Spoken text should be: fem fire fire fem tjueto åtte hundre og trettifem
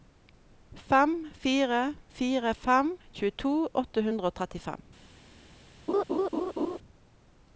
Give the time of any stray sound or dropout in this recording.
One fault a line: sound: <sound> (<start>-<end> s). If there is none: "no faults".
sound: laugh (5.9-6.8 s)